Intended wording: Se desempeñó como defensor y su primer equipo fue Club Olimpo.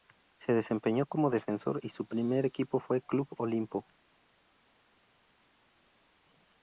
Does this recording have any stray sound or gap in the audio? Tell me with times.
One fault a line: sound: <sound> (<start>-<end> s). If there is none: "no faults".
no faults